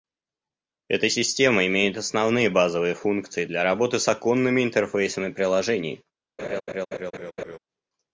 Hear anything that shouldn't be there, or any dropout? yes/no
yes